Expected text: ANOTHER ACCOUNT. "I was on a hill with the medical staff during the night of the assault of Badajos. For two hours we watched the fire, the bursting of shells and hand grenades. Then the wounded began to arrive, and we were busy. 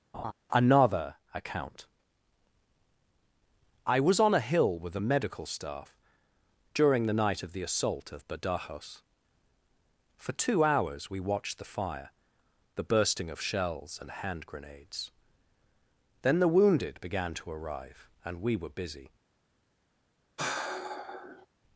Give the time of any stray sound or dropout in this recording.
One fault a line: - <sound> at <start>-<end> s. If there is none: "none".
- laugh at 0.1-0.3 s
- sigh at 20.4-21.5 s